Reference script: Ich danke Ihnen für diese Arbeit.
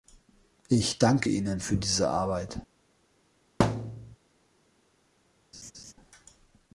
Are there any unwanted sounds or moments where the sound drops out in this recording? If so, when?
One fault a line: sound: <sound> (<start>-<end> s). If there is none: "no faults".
sound: thud (3.6-4.2 s)
sound: laugh (5.5-5.9 s)